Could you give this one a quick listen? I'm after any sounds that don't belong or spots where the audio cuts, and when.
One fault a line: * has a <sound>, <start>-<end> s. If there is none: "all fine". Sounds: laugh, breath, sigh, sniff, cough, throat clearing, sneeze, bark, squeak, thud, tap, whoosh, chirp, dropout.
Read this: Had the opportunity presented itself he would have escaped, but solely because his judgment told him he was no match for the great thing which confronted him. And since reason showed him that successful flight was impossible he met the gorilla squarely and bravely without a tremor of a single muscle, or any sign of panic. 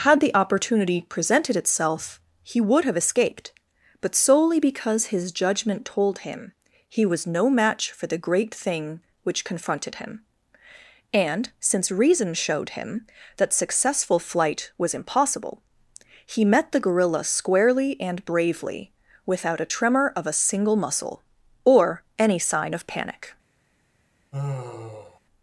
* has a sigh, 24.3-25.2 s